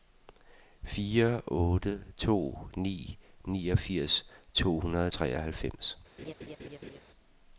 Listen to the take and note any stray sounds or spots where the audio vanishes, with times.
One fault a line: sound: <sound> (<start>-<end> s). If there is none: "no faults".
sound: laugh (6.2-7.0 s)